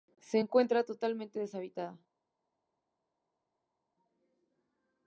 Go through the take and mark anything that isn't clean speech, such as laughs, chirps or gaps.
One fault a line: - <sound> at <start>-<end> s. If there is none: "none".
none